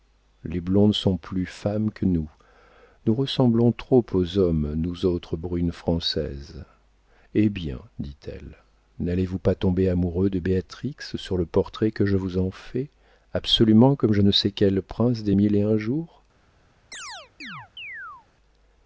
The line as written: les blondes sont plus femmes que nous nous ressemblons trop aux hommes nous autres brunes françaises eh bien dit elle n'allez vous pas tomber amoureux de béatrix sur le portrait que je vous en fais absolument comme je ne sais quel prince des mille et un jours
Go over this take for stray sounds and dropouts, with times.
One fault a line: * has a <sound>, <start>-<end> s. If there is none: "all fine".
* has a chirp, 16.9-18.3 s